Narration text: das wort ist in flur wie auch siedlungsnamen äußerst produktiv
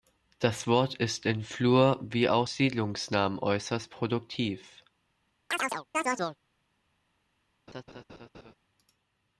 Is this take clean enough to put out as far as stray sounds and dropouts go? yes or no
no